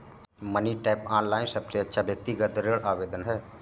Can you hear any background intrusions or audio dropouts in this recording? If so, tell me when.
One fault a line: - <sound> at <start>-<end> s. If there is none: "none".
none